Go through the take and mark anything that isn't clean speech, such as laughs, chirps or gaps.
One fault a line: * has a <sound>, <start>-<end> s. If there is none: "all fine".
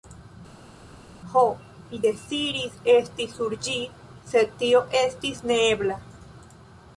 all fine